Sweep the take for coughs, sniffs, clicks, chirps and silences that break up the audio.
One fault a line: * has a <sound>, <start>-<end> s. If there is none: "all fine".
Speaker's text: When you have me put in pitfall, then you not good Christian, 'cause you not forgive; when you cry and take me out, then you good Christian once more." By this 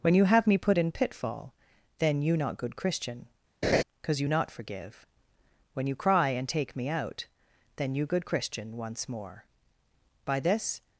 * has a laugh, 3.6-3.8 s